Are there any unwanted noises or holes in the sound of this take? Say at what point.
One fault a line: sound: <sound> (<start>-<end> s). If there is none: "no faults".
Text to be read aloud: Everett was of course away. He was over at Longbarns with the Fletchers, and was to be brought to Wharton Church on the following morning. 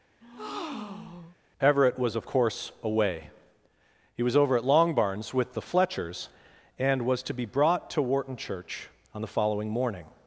sound: breath (0.2-1.4 s)